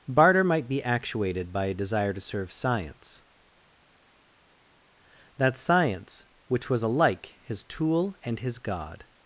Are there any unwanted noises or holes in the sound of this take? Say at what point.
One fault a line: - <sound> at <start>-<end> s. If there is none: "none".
none